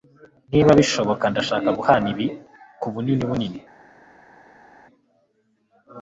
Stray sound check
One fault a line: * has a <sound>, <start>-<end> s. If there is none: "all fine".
all fine